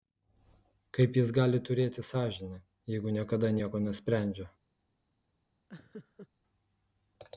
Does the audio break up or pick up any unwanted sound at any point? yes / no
yes